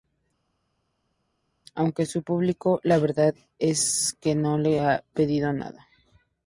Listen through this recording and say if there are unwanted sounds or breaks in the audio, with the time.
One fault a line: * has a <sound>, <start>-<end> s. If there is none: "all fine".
all fine